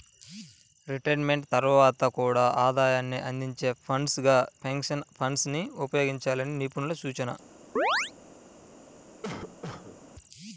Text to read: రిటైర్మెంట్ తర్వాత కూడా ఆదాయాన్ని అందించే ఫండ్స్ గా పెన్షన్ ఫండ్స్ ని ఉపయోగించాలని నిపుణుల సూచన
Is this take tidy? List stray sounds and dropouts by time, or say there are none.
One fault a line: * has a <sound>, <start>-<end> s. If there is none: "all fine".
* has a chirp, 7.8-8.1 s
* has a cough, 9.2-10.0 s